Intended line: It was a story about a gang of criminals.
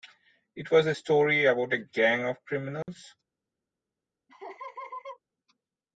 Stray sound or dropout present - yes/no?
yes